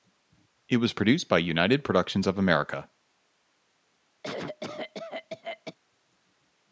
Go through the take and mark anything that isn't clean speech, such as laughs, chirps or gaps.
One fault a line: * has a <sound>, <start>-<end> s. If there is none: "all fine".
* has a cough, 4.2-5.8 s